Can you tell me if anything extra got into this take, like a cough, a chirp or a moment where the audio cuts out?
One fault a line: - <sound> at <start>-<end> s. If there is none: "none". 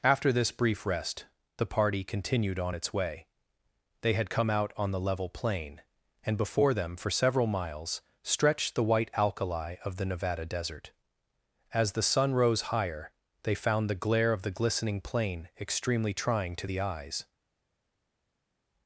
none